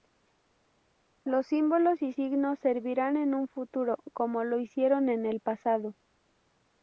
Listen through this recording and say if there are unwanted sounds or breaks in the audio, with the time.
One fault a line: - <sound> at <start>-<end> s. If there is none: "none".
none